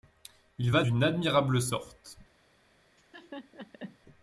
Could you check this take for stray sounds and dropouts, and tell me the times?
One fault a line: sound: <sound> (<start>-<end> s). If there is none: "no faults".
sound: laugh (3.0-4.0 s)